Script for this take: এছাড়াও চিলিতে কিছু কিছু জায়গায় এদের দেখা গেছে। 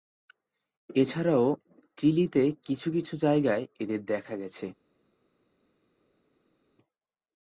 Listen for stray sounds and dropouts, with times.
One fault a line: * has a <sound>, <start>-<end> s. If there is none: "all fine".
all fine